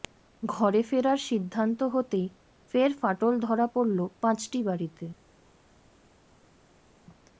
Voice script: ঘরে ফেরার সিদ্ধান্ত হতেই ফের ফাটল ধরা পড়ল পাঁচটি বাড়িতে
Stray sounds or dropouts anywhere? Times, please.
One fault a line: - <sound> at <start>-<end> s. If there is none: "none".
none